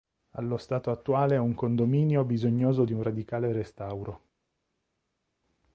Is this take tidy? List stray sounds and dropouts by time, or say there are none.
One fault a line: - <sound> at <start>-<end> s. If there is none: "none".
none